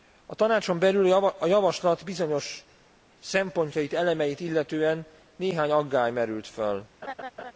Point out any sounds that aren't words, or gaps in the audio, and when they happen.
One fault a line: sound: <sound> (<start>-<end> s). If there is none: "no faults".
sound: laugh (7.0-7.5 s)